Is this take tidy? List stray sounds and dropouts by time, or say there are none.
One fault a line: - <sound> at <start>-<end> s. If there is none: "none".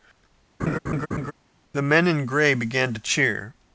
- laugh at 0.6-1.3 s